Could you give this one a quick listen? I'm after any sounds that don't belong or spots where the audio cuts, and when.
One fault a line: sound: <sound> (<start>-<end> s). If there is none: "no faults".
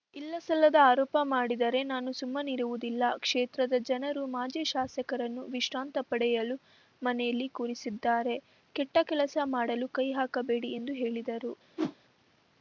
sound: whoosh (11.8-12.0 s)